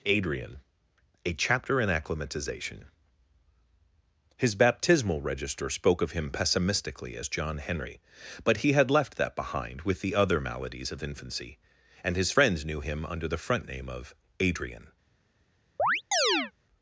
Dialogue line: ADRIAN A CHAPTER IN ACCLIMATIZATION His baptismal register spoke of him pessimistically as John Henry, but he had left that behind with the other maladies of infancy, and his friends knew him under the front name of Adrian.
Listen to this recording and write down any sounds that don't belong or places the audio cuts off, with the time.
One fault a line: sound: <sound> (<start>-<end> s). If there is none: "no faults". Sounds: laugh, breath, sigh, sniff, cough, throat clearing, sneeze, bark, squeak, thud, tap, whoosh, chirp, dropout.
sound: chirp (15.8-16.5 s)